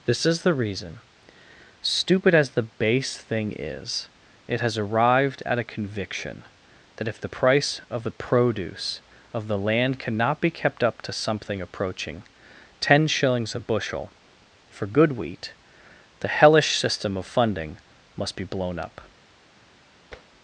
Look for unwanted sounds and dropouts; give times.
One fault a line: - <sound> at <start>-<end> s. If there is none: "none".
- tap at 20.1-20.3 s